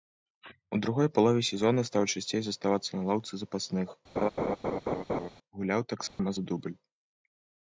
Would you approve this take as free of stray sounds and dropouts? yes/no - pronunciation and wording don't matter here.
no